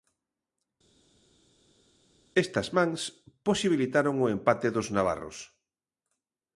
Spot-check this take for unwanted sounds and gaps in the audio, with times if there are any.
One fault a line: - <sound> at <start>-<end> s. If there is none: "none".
none